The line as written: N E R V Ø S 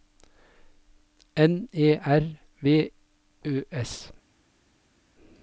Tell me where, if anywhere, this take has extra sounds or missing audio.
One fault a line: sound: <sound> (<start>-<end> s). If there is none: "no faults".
no faults